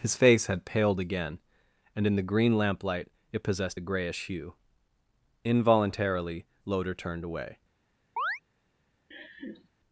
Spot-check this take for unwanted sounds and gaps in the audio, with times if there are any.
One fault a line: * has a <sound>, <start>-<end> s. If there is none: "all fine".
* has a chirp, 8.2-8.4 s
* has a laugh, 9.1-9.7 s